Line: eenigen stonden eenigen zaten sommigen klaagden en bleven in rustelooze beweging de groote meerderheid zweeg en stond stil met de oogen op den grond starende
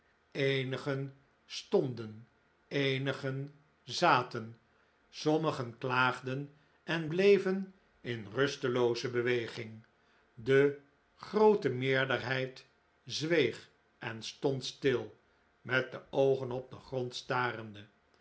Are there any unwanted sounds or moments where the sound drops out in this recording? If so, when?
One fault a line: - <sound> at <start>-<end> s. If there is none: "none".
none